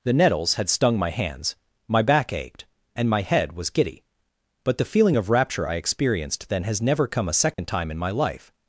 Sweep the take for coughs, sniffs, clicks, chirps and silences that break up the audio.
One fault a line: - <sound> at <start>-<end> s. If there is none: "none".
- dropout at 7.5-7.6 s